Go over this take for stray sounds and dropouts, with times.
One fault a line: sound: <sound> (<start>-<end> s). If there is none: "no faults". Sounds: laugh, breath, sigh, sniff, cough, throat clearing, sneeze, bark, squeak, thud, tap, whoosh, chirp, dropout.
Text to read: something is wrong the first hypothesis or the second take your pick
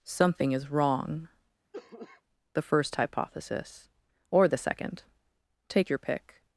sound: cough (1.7-2.2 s)